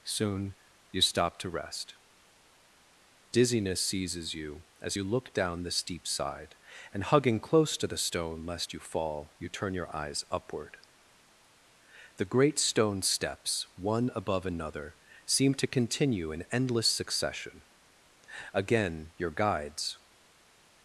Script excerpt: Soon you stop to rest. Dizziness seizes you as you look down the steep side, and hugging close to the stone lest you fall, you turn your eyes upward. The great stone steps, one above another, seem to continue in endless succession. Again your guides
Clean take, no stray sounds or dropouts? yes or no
yes